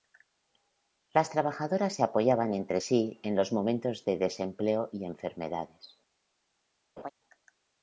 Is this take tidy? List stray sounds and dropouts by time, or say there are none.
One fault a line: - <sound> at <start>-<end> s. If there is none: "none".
- laugh at 7.0-7.1 s